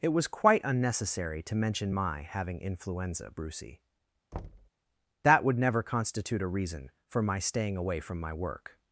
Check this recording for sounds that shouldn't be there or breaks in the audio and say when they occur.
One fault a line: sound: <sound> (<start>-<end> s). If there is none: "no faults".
sound: thud (4.3-4.7 s)